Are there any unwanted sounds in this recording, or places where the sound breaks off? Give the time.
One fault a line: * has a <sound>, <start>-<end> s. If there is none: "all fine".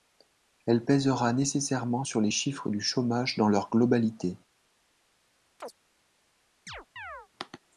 * has a chirp, 5.6-5.7 s
* has a chirp, 6.7-7.3 s